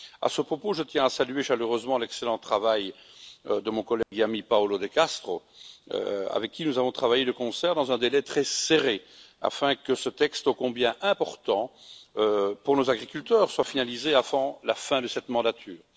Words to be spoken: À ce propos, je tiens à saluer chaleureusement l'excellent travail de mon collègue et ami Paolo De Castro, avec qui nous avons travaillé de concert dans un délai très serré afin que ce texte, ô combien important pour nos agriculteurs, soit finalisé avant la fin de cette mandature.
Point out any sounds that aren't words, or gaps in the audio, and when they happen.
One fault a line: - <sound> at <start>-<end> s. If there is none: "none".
- dropout at 4.0-4.1 s